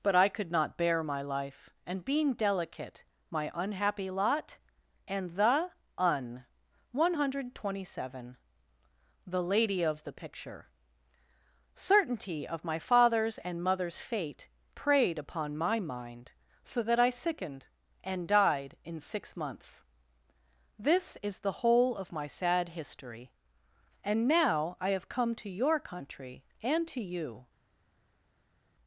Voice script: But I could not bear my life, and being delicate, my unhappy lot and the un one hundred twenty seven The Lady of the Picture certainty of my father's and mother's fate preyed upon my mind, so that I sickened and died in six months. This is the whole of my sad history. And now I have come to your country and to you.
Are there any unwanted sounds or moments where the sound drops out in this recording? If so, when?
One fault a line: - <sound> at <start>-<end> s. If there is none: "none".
none